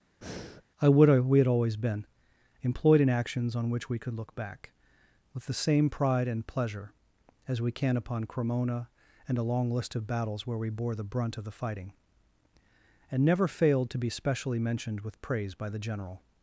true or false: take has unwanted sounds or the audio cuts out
true